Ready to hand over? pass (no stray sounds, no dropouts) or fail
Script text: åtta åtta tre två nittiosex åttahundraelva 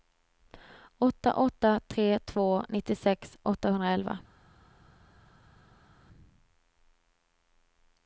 pass